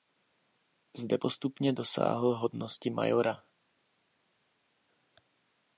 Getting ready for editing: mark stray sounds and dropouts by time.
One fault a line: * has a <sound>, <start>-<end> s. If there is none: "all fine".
all fine